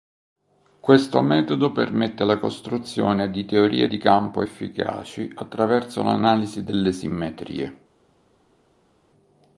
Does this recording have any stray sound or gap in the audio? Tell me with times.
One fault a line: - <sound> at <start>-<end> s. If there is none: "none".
none